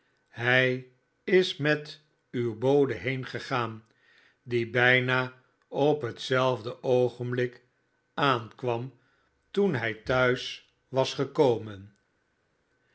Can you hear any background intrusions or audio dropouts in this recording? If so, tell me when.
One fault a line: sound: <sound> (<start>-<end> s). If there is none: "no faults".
no faults